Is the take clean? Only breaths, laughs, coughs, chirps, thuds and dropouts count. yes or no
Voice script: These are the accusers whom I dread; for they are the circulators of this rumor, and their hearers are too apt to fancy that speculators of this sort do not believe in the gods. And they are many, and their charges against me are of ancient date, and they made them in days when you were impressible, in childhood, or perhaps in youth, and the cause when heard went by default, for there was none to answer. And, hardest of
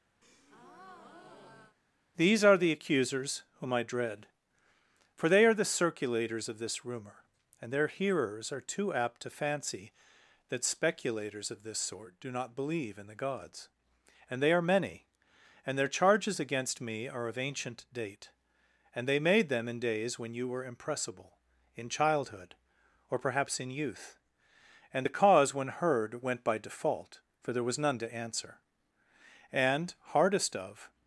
no